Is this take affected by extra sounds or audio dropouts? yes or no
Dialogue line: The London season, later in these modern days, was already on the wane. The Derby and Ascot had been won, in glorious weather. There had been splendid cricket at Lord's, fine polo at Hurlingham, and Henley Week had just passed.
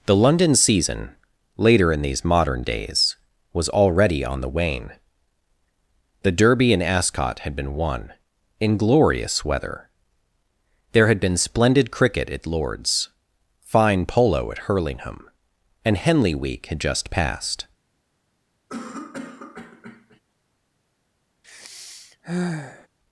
yes